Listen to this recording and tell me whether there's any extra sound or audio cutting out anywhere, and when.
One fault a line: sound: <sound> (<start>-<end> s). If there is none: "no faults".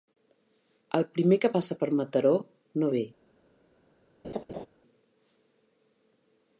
sound: laugh (4.2-4.7 s)